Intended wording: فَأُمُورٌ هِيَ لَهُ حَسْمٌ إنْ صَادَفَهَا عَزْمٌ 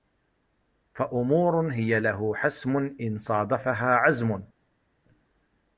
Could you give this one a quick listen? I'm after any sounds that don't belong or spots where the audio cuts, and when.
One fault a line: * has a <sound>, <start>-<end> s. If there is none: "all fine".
all fine